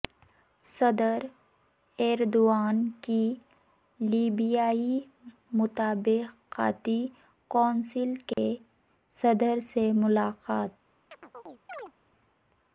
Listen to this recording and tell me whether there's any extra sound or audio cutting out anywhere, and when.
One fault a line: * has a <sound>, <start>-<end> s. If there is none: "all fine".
* has a dropout, 8.3-8.4 s
* has a chirp, 11.1-11.9 s